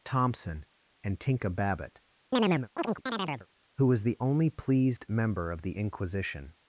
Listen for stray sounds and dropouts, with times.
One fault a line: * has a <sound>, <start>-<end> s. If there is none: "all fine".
* has a chirp, 2.3-3.5 s